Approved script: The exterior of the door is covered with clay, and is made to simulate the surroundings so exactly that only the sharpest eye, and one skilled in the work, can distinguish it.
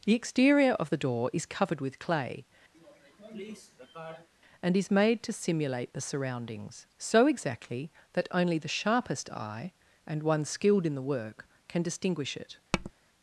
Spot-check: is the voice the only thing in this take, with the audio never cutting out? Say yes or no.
no